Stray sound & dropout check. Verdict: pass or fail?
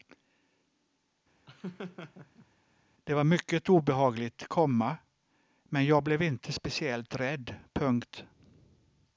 fail